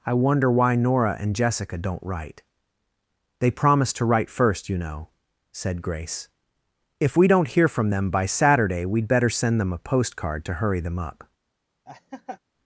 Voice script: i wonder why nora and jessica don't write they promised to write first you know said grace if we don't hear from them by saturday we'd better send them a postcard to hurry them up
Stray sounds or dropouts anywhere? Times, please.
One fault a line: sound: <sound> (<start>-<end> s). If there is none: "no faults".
sound: laugh (11.9-12.4 s)